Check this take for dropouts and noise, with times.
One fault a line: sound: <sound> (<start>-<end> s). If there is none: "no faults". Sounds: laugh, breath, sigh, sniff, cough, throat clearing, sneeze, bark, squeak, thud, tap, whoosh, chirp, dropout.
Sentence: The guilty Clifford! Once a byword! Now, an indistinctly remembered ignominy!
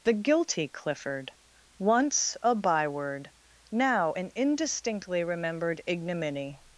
no faults